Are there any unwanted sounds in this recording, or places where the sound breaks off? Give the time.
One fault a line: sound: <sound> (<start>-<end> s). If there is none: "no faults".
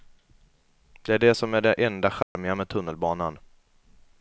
sound: dropout (2.2-2.4 s)